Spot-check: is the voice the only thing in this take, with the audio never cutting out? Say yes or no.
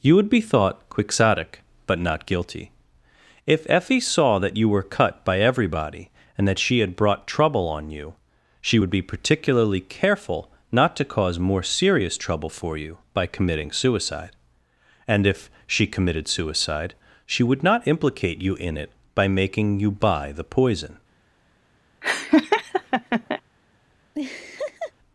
no